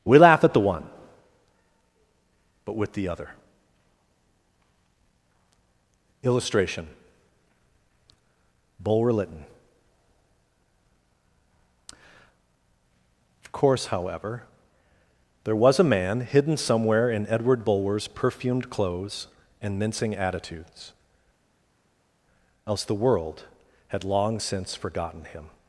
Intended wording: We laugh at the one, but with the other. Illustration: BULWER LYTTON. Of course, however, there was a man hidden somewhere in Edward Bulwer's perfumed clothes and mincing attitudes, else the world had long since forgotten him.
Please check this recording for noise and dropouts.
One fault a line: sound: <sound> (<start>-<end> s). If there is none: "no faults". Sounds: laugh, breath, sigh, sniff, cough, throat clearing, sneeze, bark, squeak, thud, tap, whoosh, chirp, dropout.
no faults